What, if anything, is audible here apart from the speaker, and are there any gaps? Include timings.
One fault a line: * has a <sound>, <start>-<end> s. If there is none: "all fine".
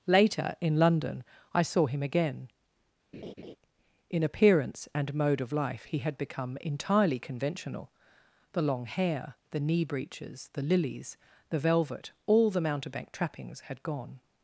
* has a laugh, 3.1-3.6 s